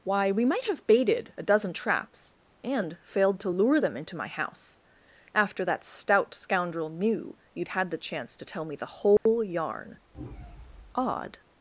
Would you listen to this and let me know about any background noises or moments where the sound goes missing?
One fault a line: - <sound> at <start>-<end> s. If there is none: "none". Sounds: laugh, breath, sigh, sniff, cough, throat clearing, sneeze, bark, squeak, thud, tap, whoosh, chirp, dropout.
- dropout at 9.2-9.3 s